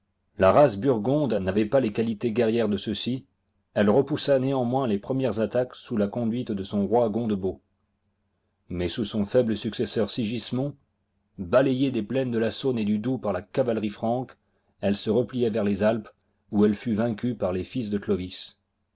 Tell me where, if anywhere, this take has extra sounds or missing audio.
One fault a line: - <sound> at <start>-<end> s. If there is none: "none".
none